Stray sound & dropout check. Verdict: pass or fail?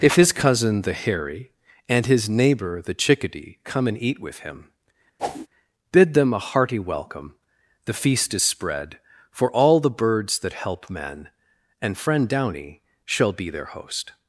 fail